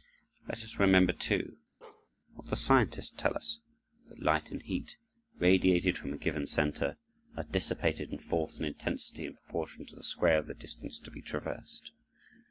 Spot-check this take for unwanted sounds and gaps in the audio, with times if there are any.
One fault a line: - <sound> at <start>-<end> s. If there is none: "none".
- bark at 1.8-2.1 s